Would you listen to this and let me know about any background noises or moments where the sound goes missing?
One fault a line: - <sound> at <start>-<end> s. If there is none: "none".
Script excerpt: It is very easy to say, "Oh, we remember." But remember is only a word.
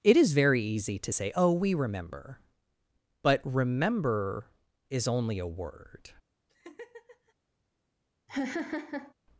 - laugh at 6.5-7.3 s
- laugh at 8.3-9.1 s